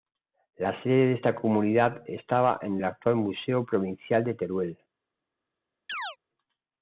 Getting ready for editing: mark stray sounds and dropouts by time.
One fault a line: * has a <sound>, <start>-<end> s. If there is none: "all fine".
* has a chirp, 5.9-6.2 s